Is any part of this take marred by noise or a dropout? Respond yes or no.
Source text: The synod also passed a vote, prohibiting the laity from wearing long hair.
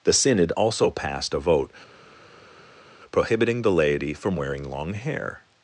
no